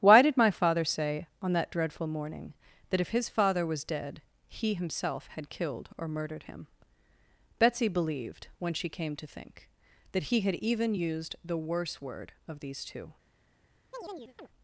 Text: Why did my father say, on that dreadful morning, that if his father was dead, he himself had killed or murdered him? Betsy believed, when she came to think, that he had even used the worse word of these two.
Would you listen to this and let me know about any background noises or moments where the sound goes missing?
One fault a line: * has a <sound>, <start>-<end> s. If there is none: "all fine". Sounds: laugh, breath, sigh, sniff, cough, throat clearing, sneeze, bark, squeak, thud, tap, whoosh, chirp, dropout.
* has a chirp, 13.9-14.5 s